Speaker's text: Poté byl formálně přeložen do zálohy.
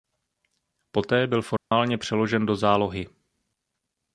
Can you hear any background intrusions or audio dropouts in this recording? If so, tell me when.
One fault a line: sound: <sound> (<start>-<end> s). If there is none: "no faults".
sound: dropout (1.6-1.7 s)